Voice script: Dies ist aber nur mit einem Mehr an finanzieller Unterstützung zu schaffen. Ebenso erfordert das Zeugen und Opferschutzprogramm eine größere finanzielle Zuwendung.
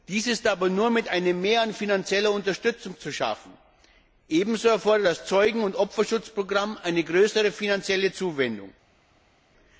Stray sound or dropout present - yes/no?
no